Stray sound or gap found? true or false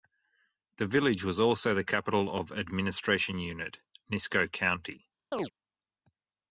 true